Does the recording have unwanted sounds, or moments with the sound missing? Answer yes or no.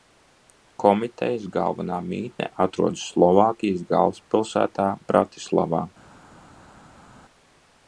no